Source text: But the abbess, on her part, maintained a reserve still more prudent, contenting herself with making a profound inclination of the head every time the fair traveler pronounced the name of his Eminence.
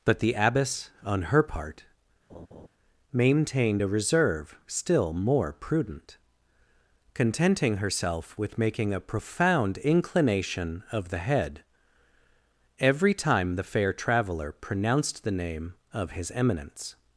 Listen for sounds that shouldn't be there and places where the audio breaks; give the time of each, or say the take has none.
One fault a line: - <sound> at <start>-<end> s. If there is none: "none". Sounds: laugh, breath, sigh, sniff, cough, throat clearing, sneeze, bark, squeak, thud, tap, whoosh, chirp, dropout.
- laugh at 2.3-2.7 s